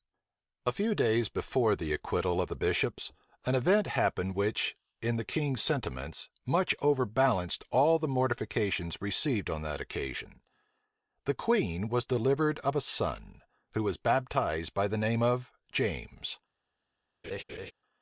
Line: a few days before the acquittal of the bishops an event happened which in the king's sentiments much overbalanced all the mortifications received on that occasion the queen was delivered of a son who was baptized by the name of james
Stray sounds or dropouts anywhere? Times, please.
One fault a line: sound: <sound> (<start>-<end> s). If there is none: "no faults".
sound: laugh (17.2-17.7 s)